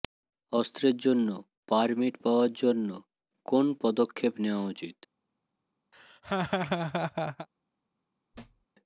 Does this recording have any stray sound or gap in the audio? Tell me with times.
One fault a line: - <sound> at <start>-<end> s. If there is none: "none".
- laugh at 5.9-7.5 s
- thud at 8.3-8.7 s